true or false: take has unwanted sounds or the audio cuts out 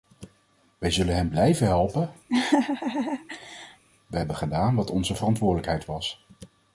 true